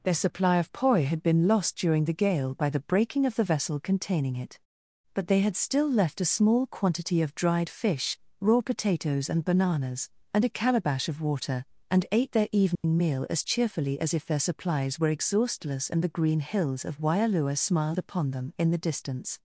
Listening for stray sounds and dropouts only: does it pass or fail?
fail